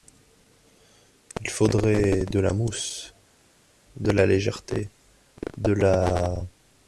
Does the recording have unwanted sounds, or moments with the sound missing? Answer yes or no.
no